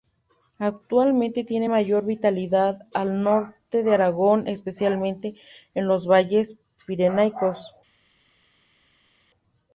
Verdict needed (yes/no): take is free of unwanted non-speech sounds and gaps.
yes